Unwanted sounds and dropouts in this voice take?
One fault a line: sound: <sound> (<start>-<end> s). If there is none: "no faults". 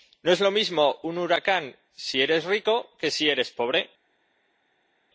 no faults